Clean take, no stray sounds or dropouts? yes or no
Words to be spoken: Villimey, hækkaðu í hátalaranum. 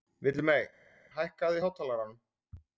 yes